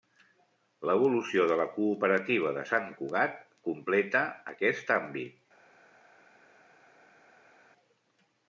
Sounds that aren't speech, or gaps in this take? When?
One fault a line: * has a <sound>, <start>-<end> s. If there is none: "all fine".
all fine